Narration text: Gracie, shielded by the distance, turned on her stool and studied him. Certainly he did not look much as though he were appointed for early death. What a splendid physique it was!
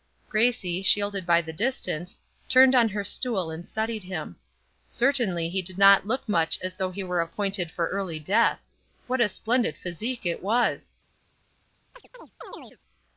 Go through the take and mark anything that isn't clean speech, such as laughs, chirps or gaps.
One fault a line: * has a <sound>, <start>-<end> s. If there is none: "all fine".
* has a chirp, 11.9-12.8 s